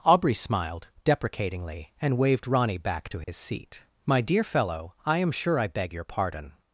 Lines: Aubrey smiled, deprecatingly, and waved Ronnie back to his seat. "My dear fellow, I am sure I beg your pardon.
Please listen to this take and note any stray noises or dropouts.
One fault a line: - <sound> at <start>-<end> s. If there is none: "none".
- dropout at 3.2-3.3 s